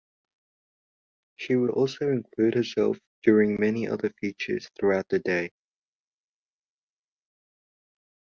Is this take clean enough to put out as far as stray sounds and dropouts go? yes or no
yes